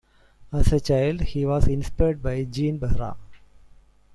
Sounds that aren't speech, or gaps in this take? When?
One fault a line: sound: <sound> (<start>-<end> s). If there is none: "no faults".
no faults